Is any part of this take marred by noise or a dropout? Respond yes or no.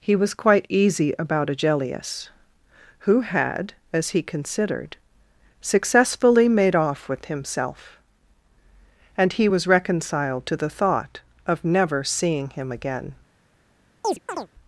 yes